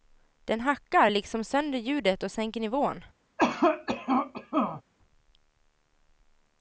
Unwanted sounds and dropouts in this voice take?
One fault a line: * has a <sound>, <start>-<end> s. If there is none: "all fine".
* has a cough, 3.4-4.8 s